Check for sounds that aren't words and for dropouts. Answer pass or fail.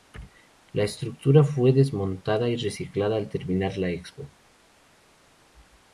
pass